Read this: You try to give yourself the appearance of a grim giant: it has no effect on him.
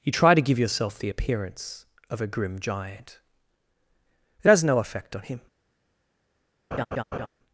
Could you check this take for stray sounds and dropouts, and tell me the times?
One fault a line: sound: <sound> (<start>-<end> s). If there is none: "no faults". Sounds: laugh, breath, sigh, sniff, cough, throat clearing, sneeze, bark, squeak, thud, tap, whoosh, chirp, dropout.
sound: laugh (6.7-7.3 s)